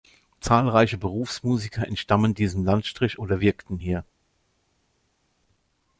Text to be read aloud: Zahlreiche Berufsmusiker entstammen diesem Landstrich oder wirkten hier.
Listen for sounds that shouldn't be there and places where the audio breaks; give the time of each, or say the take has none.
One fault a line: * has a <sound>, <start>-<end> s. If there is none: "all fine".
all fine